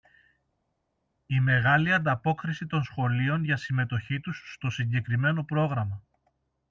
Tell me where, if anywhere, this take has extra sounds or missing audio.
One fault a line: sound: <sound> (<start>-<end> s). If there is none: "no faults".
no faults